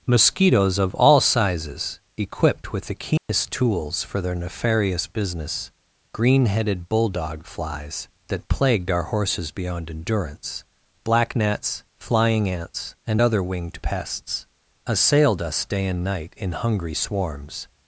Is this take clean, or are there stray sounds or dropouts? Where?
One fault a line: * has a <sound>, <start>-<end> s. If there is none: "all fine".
* has a dropout, 3.2-3.3 s